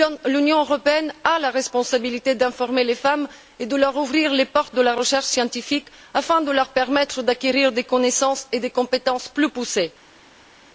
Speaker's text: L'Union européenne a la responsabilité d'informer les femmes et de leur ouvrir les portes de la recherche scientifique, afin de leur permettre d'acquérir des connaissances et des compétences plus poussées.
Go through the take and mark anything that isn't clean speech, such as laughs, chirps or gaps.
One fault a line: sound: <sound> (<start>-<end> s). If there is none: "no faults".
no faults